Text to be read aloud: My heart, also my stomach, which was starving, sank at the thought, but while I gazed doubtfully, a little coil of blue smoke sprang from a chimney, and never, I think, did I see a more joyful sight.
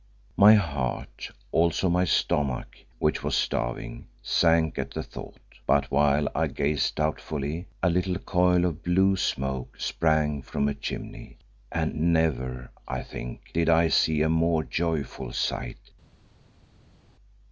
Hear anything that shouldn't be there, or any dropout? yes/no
no